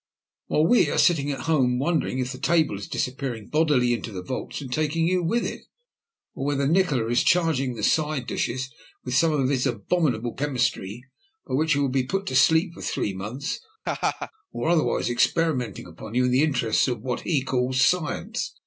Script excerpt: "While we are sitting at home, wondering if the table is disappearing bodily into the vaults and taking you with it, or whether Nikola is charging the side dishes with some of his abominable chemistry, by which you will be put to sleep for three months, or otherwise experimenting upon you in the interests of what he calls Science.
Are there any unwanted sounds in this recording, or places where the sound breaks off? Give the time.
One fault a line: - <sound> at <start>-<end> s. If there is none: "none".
- laugh at 13.9-14.3 s